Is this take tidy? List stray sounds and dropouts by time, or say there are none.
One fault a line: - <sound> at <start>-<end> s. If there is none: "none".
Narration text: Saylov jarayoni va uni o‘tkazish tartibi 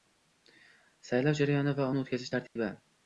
- dropout at 2.5-2.6 s